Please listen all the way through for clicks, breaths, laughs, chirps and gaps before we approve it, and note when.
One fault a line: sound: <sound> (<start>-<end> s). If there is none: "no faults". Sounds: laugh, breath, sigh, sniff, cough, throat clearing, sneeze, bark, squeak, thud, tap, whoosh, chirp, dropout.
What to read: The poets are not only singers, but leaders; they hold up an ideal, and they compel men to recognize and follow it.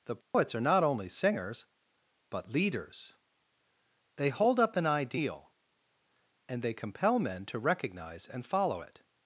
sound: dropout (0.2-0.3 s)